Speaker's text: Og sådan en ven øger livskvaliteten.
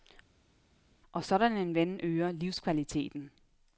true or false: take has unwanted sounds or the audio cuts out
false